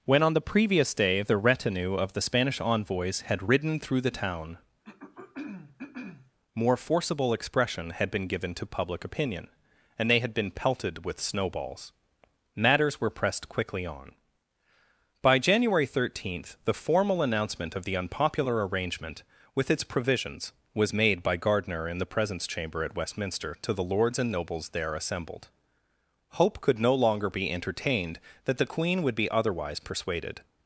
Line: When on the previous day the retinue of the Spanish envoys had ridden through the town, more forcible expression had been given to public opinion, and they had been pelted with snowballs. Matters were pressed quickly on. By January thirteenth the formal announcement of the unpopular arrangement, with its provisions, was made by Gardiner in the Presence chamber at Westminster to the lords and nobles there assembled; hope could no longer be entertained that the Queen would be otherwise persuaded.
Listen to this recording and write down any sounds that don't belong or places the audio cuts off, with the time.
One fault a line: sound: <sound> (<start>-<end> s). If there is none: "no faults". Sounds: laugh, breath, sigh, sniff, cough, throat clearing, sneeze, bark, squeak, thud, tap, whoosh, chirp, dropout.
sound: throat clearing (4.8-6.3 s)